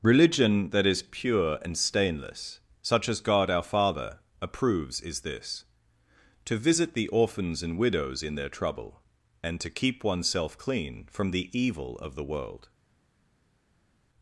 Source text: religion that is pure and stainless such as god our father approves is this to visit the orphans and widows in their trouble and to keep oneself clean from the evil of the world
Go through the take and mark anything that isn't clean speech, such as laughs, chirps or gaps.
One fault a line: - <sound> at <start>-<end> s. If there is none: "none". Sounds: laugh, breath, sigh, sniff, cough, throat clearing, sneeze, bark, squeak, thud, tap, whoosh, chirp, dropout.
none